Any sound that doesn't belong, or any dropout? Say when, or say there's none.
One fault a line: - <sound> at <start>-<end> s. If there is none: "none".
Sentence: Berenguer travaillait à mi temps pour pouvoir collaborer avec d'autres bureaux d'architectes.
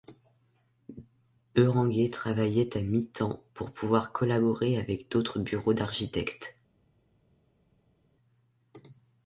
none